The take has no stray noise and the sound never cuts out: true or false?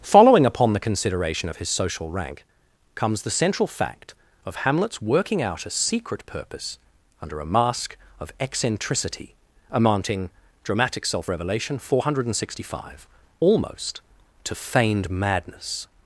true